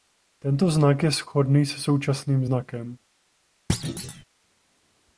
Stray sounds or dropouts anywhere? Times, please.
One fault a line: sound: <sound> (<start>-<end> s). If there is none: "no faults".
sound: thud (3.7-4.2 s)